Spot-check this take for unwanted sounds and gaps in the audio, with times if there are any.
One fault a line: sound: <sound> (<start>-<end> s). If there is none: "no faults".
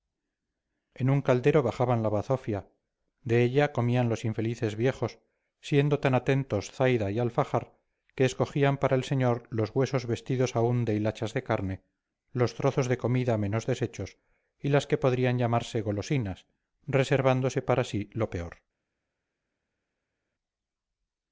no faults